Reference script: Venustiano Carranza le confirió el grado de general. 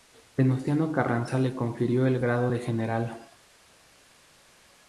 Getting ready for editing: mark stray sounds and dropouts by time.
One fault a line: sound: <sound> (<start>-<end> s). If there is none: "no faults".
no faults